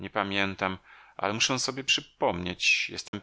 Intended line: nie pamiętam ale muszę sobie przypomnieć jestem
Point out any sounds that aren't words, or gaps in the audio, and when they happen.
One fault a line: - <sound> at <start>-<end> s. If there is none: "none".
- dropout at 3.1-3.1 s